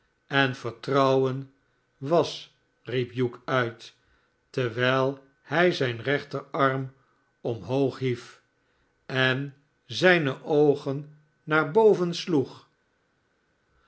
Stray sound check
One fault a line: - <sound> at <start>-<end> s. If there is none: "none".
none